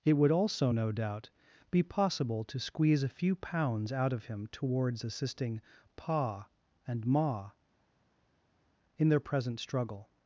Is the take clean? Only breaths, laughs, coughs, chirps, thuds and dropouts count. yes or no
yes